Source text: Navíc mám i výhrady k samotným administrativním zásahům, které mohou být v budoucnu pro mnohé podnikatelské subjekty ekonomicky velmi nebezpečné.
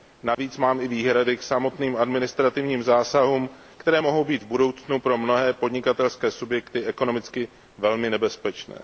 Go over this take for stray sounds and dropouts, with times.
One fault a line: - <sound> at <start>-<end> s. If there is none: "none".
- dropout at 0.3-0.4 s